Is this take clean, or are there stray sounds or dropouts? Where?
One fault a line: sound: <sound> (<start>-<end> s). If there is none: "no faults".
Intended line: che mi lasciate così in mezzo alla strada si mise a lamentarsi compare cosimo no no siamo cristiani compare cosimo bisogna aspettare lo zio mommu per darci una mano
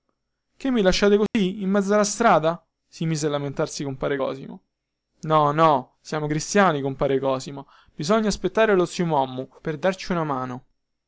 sound: dropout (1.3-1.3 s)